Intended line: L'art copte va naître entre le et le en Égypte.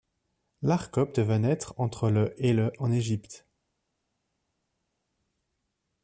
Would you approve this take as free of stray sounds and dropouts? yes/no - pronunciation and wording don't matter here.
yes